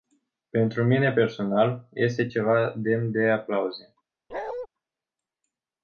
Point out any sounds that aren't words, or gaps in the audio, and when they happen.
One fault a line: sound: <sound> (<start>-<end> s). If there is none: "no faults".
sound: bark (4.3-4.7 s)